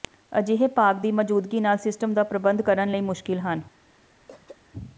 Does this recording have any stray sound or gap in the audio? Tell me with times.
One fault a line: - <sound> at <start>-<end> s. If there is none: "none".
- throat clearing at 4.3-4.6 s